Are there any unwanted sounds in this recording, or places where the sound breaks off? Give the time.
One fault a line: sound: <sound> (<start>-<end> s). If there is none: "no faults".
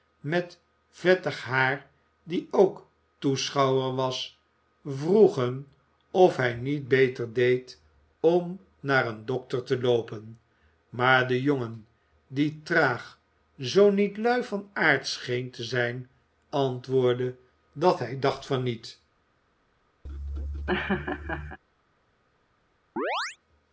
sound: laugh (20.0-21.6 s)
sound: chirp (23.0-23.4 s)